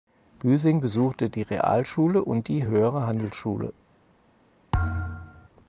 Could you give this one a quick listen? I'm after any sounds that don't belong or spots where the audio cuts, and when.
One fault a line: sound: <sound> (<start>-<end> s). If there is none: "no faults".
sound: thud (4.7-5.5 s)